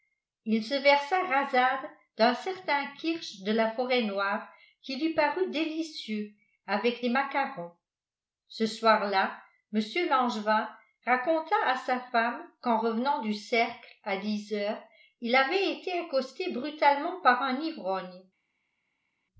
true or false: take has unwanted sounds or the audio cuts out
false